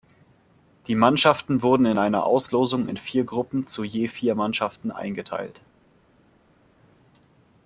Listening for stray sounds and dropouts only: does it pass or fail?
pass